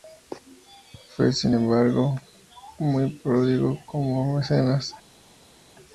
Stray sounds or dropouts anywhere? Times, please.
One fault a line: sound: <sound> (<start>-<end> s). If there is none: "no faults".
no faults